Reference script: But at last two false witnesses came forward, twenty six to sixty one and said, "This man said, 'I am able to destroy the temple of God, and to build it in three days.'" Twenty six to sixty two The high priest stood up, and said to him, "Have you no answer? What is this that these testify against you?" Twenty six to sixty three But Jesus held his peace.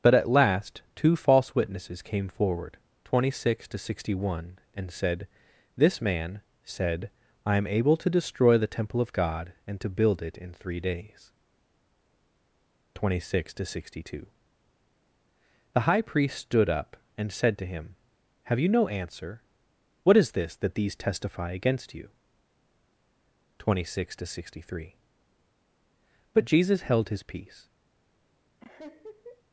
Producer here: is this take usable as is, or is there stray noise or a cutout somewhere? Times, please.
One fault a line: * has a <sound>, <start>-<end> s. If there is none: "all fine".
* has a laugh, 28.6-29.4 s